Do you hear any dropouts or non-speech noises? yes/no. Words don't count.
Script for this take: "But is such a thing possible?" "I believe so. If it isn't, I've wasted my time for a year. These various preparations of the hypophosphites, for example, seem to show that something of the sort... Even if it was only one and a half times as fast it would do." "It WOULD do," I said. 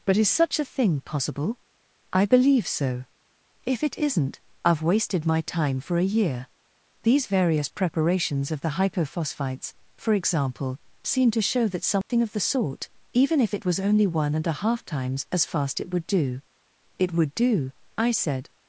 yes